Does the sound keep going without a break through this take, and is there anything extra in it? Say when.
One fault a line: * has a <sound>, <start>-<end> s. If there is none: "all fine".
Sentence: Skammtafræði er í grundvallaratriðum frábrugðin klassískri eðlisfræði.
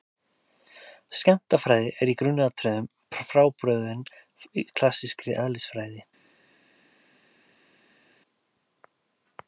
all fine